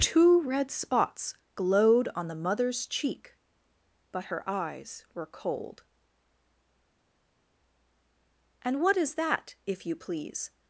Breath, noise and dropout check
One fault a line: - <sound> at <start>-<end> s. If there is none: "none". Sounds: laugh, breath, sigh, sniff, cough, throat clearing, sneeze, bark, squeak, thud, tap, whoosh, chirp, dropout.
none